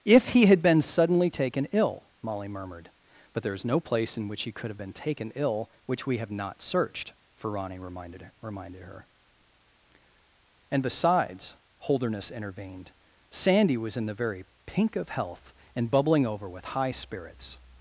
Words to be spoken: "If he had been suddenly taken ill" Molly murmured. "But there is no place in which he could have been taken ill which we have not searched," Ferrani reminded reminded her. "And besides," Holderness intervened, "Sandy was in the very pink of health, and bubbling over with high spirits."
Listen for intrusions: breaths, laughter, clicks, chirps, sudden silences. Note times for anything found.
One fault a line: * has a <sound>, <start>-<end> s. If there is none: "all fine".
all fine